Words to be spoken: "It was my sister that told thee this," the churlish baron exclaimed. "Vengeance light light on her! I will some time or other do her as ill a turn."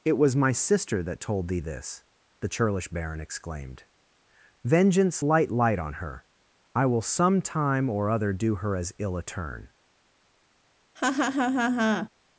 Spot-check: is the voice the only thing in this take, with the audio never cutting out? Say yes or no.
no